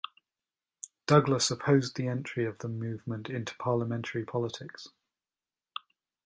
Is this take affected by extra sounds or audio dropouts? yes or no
no